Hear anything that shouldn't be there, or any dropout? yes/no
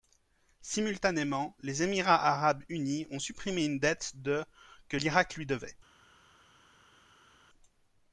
no